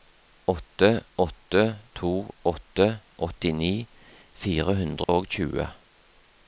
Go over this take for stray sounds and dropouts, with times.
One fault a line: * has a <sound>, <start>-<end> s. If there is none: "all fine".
* has a dropout, 5.0-5.1 s